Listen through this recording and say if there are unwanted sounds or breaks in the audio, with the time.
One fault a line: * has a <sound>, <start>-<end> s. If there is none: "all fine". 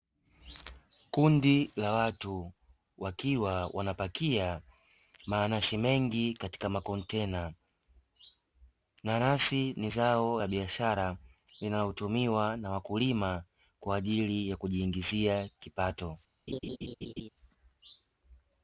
* has a laugh, 16.5-17.3 s